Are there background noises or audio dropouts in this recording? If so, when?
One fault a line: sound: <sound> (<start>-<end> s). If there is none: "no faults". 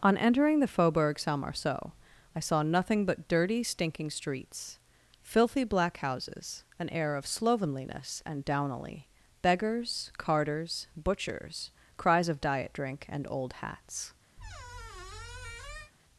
sound: squeak (14.4-15.9 s)